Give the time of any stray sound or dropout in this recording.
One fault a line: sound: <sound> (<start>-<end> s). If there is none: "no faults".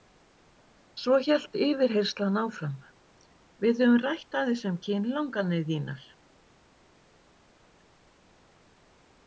no faults